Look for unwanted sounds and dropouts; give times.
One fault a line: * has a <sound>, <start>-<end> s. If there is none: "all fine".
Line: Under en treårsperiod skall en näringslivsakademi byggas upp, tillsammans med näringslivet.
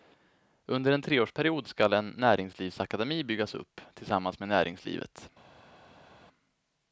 all fine